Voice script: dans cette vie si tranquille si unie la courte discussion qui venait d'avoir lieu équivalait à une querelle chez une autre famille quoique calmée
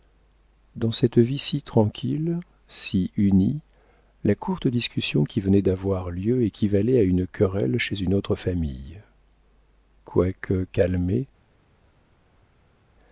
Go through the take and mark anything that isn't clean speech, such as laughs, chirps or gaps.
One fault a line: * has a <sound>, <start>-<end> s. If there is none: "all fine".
all fine